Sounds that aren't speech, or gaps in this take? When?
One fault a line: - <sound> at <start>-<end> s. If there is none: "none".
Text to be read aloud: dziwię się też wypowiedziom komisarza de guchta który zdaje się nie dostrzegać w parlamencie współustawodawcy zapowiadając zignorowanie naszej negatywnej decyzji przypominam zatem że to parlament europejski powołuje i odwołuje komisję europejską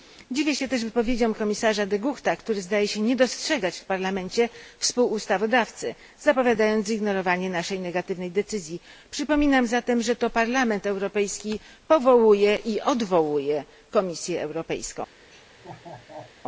- laugh at 15.3-16.3 s